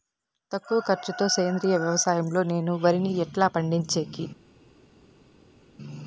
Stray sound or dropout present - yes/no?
no